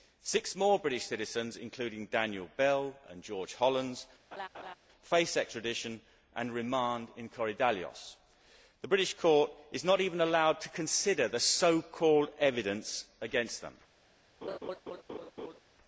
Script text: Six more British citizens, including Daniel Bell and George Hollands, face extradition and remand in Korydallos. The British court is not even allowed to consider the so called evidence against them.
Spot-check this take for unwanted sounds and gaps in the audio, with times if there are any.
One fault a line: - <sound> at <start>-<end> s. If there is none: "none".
- laugh at 4.3-4.7 s
- laugh at 14.4-15.6 s